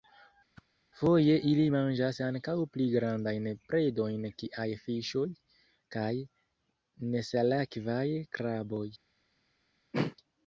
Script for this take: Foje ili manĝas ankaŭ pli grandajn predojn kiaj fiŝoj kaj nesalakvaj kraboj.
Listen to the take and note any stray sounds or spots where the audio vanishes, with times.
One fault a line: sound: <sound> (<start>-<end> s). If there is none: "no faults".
sound: whoosh (0.5-0.7 s)
sound: throat clearing (9.9-10.2 s)